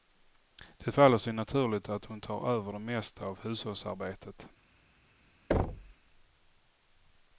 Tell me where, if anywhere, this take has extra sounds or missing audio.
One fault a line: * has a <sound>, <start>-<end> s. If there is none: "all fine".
* has a thud, 5.5-5.9 s